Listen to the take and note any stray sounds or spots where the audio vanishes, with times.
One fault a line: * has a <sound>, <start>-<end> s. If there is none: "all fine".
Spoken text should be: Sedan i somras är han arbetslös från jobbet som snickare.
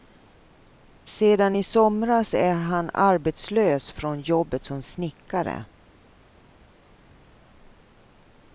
all fine